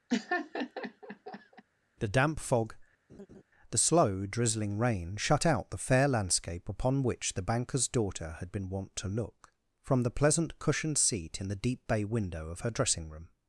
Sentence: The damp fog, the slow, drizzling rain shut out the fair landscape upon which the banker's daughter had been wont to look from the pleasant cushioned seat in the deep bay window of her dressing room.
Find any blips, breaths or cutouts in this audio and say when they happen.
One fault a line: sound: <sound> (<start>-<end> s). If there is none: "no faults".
sound: laugh (0.1-1.6 s)
sound: laugh (3.1-3.4 s)